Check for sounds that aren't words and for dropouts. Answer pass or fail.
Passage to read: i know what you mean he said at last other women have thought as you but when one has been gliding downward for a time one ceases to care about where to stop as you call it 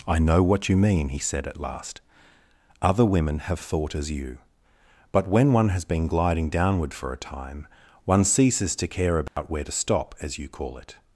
fail